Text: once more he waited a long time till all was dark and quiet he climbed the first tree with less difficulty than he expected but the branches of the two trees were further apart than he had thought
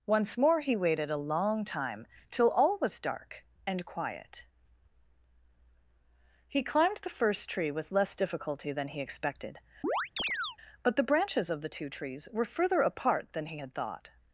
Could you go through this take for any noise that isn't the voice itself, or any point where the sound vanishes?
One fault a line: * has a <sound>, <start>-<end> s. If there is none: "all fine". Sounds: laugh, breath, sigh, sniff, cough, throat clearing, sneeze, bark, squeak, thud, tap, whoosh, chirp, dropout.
* has a chirp, 9.8-10.6 s